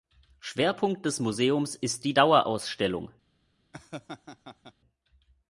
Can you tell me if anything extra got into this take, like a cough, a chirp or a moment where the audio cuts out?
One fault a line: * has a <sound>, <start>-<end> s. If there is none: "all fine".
* has a laugh, 3.7-4.7 s